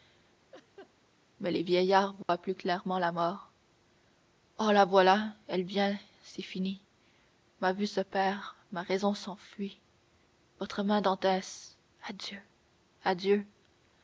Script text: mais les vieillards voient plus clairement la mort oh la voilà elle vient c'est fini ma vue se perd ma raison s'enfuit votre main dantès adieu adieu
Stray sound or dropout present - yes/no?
yes